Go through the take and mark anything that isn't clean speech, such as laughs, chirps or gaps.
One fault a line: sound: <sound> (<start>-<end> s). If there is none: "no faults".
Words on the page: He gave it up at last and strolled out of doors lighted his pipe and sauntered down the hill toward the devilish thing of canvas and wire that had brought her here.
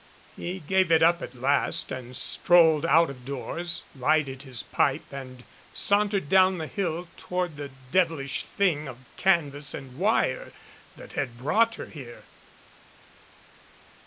no faults